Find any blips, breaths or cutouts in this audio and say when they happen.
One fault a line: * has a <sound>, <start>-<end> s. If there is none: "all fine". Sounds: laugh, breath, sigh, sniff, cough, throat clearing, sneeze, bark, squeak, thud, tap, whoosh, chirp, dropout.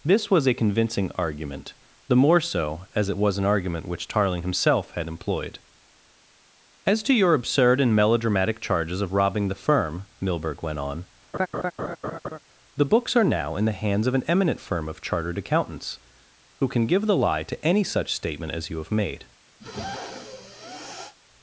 * has a laugh, 11.3-12.4 s
* has a sniff, 19.6-21.2 s